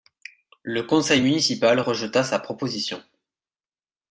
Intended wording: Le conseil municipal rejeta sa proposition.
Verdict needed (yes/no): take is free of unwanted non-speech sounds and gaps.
yes